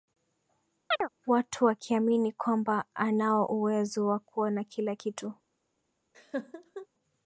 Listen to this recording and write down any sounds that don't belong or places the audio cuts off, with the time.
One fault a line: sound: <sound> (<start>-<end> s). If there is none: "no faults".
sound: chirp (0.9-1.1 s)
sound: laugh (6.1-6.9 s)